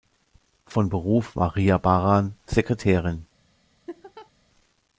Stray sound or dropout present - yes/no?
yes